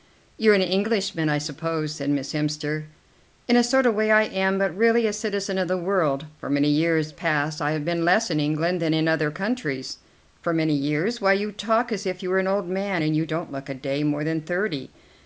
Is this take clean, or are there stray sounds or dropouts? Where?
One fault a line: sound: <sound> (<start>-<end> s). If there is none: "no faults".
no faults